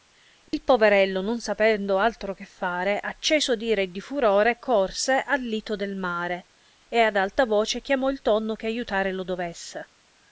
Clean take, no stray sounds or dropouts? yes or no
no